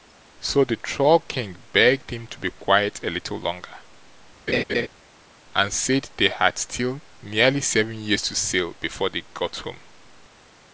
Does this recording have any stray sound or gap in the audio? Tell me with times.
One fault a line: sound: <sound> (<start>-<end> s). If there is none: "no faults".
sound: laugh (4.5-4.9 s)